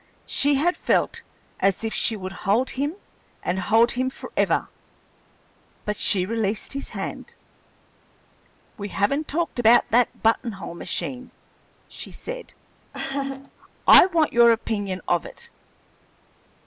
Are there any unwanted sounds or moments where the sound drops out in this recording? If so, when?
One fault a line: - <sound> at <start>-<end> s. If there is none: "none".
- laugh at 12.9-13.5 s